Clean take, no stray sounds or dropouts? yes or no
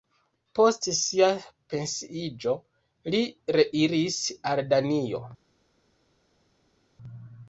yes